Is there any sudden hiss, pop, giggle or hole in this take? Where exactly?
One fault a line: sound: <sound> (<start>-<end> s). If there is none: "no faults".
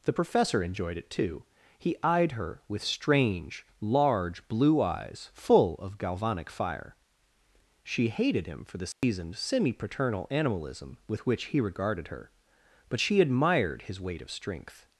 sound: dropout (8.9-9.0 s)